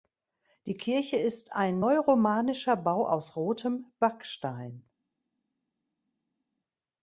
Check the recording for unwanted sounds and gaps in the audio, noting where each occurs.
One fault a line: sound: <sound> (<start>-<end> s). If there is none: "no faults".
no faults